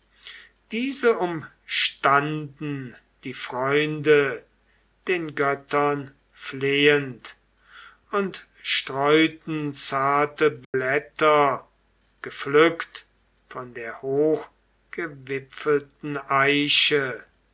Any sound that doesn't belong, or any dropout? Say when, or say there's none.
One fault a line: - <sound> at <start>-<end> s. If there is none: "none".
- dropout at 10.6-10.7 s